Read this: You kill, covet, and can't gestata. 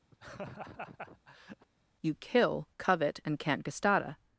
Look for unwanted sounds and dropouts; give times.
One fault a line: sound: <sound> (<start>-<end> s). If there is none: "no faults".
sound: laugh (0.1-1.7 s)